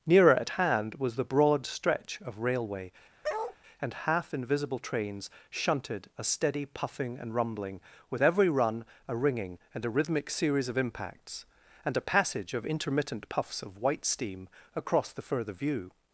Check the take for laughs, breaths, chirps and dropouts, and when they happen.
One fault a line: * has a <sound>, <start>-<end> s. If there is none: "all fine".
* has a bark, 3.2-3.6 s